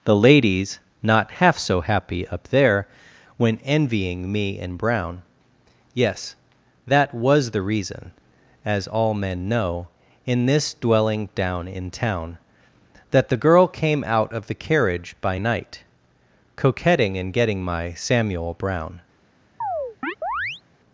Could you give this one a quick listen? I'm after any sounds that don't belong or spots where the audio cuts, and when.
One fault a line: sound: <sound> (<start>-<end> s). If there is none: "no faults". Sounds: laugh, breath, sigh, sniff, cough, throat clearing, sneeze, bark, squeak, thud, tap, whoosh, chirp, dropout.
sound: chirp (19.6-20.6 s)